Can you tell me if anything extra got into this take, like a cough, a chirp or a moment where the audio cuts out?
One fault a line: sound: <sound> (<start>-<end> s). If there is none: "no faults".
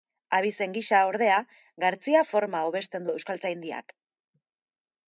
no faults